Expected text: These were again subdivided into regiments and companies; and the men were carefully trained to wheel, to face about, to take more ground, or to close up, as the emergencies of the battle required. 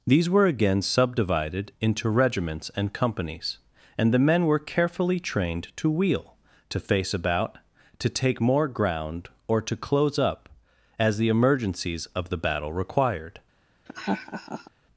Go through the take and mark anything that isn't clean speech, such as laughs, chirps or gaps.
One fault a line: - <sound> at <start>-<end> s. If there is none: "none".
- laugh at 13.9-14.7 s